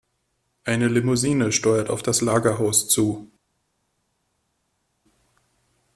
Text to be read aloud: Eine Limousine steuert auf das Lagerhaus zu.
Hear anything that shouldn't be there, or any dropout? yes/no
no